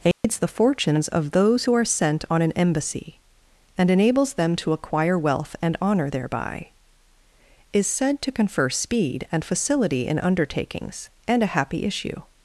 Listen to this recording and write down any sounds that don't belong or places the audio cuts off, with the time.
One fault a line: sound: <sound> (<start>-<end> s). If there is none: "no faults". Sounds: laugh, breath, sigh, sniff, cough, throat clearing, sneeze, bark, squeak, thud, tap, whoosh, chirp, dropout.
sound: dropout (0.1-0.2 s)